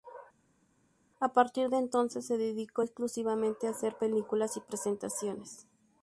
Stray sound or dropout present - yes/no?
no